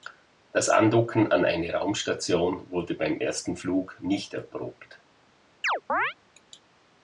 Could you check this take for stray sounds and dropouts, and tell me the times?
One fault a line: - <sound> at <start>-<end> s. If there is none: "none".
- chirp at 5.6-6.1 s